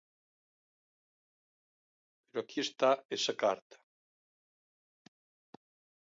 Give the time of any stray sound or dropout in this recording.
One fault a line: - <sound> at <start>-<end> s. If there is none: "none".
none